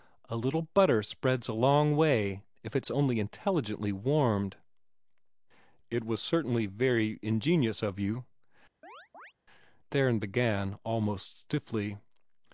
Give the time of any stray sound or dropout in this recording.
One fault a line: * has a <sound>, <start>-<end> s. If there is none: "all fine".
* has a chirp, 8.8-9.3 s